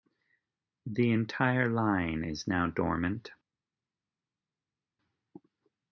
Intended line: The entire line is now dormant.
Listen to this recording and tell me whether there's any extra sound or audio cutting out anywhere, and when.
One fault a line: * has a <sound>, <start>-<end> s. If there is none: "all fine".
all fine